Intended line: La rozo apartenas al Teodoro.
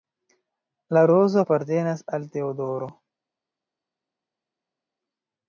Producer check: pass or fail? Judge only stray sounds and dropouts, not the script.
pass